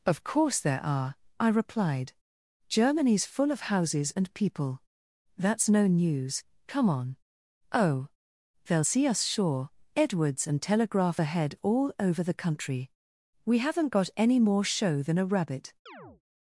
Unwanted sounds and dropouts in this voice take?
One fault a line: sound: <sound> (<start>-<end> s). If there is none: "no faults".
sound: chirp (15.9-16.2 s)